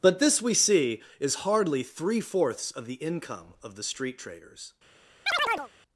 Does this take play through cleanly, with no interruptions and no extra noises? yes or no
no